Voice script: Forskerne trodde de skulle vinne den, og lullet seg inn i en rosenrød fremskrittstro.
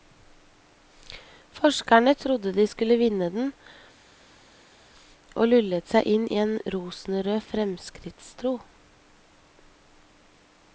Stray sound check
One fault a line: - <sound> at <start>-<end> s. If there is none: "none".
none